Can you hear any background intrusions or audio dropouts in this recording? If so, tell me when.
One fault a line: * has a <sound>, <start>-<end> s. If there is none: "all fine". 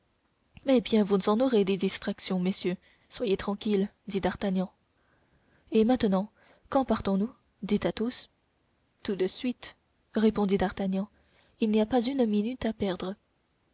all fine